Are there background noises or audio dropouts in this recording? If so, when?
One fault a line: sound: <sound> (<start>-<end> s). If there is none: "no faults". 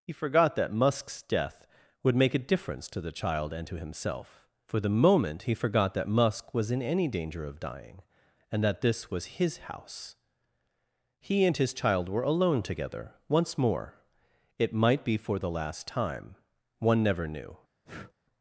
sound: breath (17.8-18.1 s)